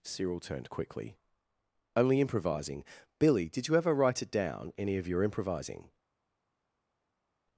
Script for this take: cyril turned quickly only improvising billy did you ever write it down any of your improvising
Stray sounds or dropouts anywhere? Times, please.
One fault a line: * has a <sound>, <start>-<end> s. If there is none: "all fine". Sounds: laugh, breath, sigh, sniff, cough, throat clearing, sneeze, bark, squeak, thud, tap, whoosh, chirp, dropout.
all fine